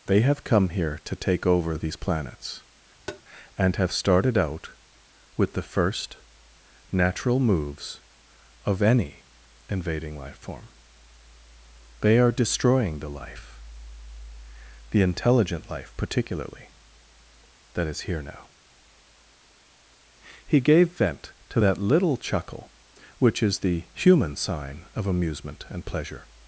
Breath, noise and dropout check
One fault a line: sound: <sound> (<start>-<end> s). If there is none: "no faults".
sound: tap (3.1-3.2 s)